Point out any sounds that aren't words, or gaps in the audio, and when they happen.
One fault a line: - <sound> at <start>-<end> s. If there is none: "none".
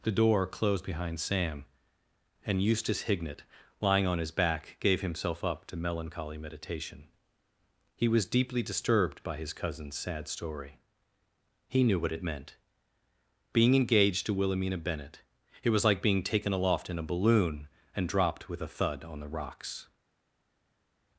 none